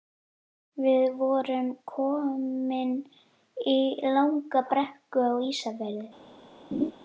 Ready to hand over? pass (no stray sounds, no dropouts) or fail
fail